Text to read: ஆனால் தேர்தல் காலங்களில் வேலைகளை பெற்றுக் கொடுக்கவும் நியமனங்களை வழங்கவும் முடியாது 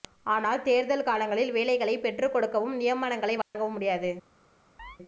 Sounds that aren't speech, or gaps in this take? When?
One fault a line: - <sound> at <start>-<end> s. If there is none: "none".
- dropout at 3.4-3.5 s
- chirp at 4.8-5.0 s